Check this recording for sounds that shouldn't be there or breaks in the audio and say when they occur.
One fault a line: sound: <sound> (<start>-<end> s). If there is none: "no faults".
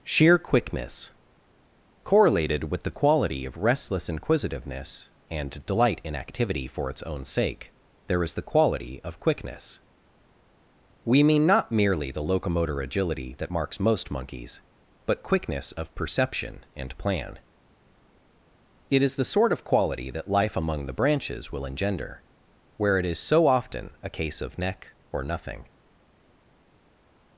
no faults